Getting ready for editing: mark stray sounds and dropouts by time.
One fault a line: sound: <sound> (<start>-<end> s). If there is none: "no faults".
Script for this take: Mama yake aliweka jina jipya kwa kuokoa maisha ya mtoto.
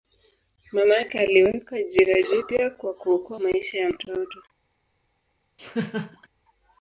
sound: laugh (5.6-6.3 s)